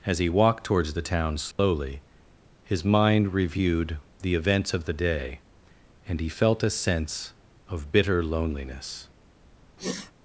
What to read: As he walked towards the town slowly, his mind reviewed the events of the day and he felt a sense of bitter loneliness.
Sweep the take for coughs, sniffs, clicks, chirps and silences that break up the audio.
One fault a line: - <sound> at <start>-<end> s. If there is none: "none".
- dropout at 1.5-1.6 s
- sniff at 9.8-10.1 s